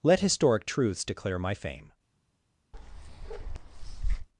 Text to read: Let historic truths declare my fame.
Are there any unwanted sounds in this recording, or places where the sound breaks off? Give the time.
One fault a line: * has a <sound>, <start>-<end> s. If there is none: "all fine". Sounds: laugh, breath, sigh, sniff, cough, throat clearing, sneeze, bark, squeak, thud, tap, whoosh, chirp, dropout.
* has a bark, 2.7-4.3 s